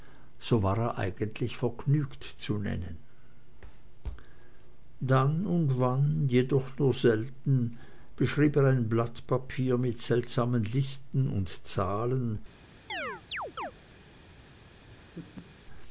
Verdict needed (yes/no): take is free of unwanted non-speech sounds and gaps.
no